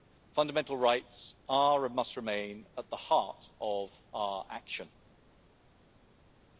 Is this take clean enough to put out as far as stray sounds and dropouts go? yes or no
yes